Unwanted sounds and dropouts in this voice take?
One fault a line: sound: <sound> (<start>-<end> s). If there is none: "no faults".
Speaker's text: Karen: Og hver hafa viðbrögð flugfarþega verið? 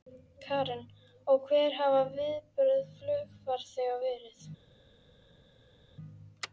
no faults